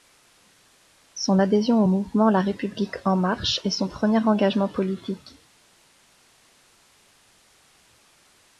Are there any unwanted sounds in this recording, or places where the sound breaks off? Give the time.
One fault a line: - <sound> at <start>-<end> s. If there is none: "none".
none